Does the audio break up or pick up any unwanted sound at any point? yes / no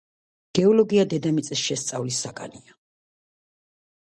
no